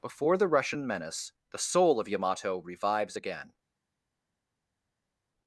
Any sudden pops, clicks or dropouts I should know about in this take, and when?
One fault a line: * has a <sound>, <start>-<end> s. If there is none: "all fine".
all fine